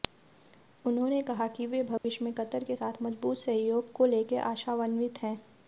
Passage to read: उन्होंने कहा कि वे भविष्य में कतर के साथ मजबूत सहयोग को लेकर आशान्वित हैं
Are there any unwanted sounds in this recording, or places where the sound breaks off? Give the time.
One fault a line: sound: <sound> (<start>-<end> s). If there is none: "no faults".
sound: dropout (2.0-2.0 s)